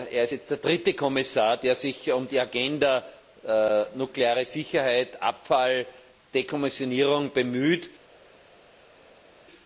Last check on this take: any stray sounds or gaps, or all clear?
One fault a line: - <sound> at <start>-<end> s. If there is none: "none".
none